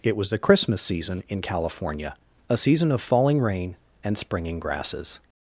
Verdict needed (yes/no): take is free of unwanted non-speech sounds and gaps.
yes